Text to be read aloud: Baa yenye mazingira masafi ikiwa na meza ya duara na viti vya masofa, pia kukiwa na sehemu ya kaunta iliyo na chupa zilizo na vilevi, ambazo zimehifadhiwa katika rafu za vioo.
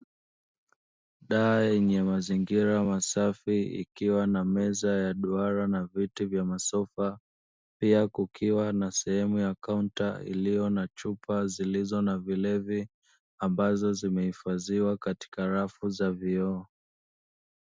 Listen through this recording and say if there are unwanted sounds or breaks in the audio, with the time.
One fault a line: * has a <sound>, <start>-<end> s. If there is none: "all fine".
all fine